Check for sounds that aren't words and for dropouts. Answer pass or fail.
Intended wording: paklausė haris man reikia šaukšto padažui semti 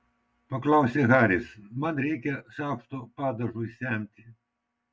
pass